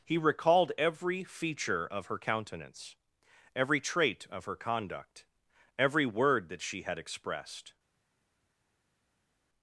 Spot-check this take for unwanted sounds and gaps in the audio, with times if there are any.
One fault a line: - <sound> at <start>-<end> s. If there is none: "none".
none